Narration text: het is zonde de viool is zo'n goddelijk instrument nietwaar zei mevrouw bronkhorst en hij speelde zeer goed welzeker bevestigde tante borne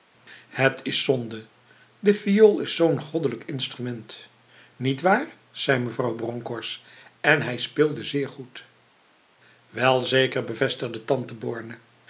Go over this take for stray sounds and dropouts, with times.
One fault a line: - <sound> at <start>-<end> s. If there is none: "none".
none